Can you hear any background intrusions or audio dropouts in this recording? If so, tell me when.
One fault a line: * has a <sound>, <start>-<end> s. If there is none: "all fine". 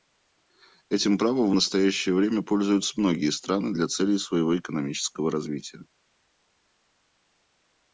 all fine